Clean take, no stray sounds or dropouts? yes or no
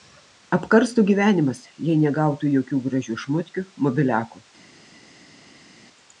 yes